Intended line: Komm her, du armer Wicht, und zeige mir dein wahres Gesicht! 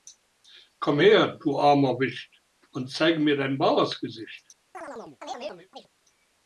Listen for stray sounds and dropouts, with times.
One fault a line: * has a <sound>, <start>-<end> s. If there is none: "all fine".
* has a chirp, 4.7-5.9 s